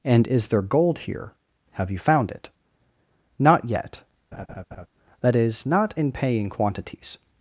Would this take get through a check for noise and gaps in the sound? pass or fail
fail